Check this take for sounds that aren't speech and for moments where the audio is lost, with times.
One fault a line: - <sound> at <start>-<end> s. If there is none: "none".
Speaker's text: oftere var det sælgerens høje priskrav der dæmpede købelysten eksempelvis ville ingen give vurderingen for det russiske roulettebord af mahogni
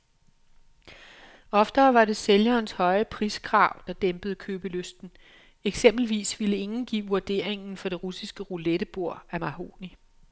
none